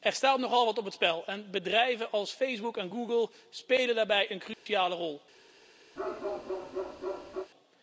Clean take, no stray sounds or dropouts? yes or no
no